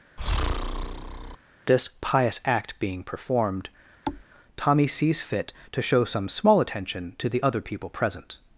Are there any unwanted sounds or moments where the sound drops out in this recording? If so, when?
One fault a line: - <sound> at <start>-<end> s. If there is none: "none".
- breath at 0.2-1.4 s
- thud at 4.1-4.3 s